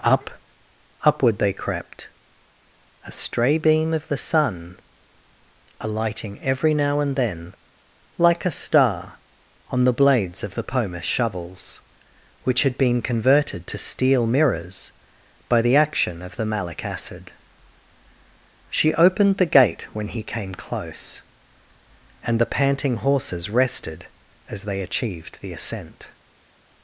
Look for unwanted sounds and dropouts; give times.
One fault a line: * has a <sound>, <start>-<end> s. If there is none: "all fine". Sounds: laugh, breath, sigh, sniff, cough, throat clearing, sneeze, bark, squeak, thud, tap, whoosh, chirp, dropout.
all fine